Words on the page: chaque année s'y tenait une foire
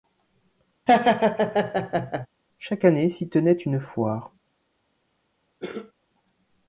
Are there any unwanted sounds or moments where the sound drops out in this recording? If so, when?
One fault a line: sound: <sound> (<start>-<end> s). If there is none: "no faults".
sound: laugh (0.9-2.3 s)
sound: cough (5.6-5.9 s)